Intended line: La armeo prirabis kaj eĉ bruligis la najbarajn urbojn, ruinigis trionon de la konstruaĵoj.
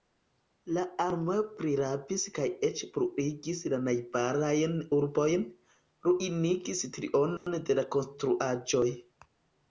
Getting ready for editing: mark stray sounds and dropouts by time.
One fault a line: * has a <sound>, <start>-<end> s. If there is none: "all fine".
* has a dropout, 7.4-7.5 s